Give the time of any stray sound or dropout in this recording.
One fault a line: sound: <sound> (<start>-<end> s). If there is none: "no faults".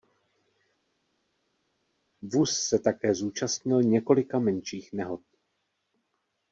no faults